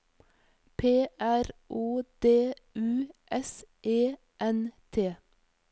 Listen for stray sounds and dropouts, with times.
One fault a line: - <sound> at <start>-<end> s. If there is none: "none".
none